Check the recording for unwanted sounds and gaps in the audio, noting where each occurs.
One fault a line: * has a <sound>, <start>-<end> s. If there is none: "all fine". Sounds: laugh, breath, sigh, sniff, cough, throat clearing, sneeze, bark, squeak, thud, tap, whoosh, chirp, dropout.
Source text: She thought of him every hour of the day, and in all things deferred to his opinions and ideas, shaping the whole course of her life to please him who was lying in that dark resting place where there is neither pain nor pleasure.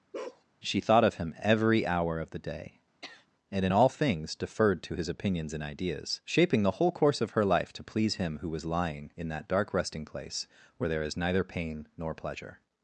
* has a bark, 0.1-0.4 s
* has a sniff, 3.0-3.3 s